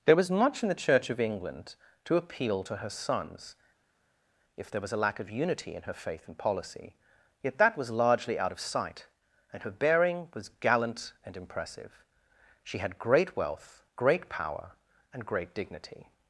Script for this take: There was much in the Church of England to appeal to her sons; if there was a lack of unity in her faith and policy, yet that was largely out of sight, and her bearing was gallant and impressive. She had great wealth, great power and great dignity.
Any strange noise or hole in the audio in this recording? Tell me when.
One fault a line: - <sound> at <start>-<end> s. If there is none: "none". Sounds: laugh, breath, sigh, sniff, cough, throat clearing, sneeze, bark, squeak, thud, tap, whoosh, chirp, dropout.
none